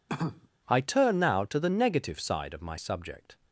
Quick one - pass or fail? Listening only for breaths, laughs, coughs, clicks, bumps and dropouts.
fail